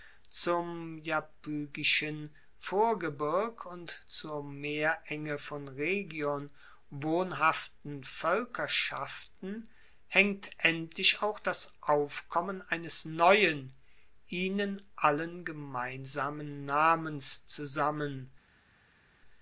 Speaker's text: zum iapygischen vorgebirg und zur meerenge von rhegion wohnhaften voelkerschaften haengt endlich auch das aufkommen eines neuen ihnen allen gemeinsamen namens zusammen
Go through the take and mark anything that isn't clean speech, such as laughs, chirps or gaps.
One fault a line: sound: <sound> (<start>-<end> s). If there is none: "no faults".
no faults